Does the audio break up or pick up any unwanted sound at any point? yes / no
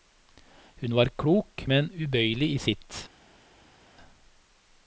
no